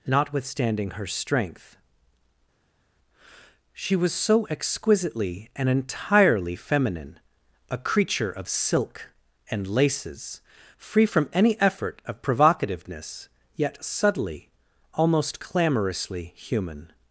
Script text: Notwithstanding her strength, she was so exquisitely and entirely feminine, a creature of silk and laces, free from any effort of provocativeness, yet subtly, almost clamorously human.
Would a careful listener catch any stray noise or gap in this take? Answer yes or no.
no